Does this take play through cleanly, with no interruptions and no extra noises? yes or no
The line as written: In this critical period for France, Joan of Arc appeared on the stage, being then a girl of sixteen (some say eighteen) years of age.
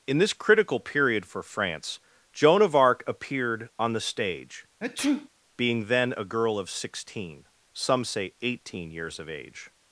no